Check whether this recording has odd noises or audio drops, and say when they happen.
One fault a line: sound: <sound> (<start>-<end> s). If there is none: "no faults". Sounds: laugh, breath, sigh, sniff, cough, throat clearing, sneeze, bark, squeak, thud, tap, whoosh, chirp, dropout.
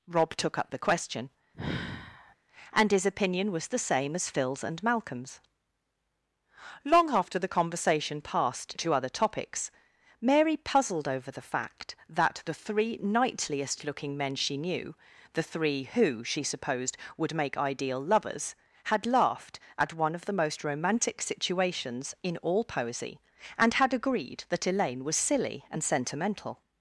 sound: sigh (1.5-2.4 s)